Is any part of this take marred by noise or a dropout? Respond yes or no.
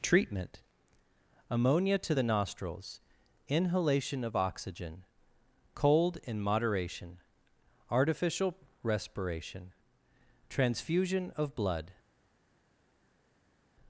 no